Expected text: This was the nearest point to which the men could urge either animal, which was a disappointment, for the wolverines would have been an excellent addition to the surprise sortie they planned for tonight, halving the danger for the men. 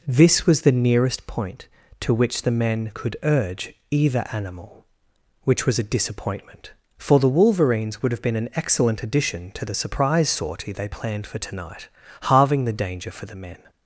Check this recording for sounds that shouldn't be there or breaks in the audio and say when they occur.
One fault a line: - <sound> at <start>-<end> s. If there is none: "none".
none